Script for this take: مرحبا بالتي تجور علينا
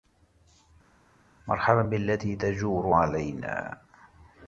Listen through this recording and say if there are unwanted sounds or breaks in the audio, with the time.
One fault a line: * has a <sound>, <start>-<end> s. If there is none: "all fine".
all fine